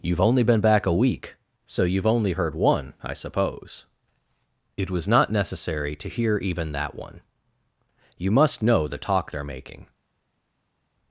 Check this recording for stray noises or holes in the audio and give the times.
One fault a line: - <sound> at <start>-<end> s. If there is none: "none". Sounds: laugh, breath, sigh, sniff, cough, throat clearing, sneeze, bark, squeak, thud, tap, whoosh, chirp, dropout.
none